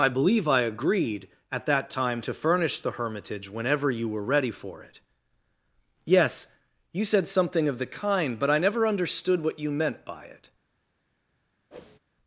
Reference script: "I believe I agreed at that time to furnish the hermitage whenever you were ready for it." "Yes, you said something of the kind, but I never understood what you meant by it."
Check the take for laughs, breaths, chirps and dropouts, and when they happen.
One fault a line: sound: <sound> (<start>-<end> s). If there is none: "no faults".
sound: whoosh (11.7-12.0 s)